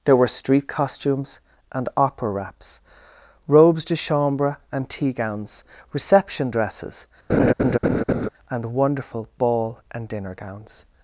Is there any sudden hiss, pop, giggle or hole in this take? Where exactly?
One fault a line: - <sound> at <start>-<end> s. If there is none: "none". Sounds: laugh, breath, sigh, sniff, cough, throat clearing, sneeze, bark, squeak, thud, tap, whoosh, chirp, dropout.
- laugh at 7.3-8.3 s